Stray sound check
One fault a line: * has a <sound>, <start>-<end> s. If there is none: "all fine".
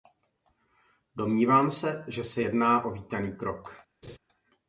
* has a laugh, 4.0-4.2 s